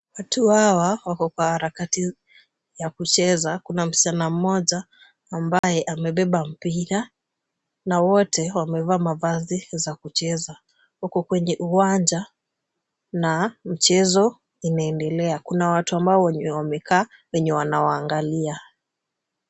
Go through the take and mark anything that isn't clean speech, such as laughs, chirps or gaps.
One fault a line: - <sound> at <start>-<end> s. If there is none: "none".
- dropout at 5.6-5.6 s